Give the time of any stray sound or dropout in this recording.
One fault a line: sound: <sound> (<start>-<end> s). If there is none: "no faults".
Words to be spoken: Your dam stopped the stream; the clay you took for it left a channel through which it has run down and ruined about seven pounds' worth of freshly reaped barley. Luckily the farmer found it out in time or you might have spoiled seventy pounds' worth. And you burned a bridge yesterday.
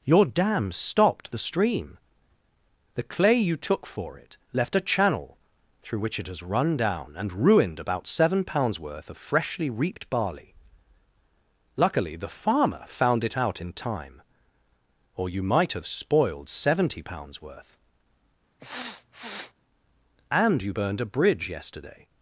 sound: sniff (18.6-19.5 s)